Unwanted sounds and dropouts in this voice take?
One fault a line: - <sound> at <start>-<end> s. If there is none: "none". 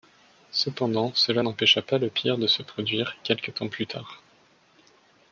none